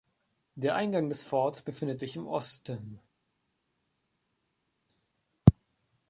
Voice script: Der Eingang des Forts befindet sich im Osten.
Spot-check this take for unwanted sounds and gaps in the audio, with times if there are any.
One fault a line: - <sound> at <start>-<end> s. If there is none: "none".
none